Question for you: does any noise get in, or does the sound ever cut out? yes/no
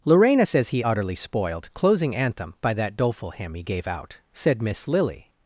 no